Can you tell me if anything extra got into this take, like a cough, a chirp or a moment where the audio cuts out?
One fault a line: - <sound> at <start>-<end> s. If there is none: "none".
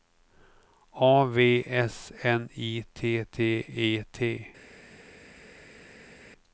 none